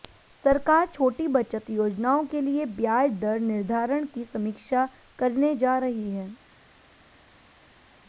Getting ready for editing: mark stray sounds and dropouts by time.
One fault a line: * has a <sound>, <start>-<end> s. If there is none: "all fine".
all fine